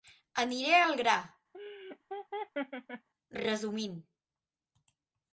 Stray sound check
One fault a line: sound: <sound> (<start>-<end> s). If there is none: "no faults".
sound: laugh (1.5-3.1 s)